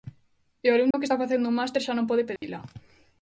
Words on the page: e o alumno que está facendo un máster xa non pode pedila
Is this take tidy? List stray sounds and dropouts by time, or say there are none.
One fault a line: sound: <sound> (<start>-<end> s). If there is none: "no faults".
sound: dropout (0.9-0.9 s)
sound: dropout (2.4-2.4 s)